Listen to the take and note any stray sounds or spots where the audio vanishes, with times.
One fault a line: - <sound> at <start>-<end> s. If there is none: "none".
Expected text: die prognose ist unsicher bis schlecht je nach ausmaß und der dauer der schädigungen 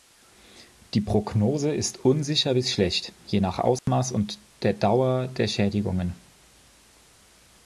- dropout at 3.8-3.9 s